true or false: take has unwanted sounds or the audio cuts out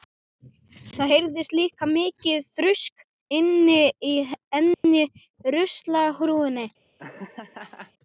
true